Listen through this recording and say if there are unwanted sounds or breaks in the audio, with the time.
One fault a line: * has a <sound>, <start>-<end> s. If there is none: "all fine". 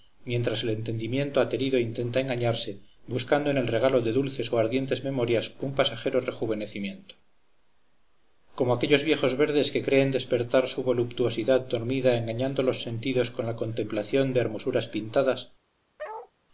* has a bark, 16.0-16.3 s